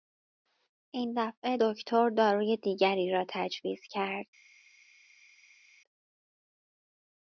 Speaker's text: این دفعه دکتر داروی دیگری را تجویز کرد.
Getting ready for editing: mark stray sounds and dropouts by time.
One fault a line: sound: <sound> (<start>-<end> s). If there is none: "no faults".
no faults